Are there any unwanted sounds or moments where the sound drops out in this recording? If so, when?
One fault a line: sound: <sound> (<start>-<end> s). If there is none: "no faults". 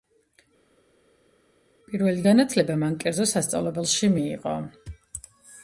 no faults